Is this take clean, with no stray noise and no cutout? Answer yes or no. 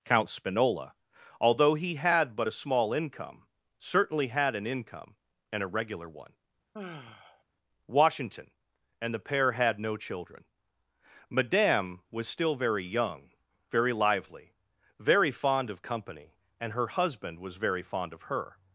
no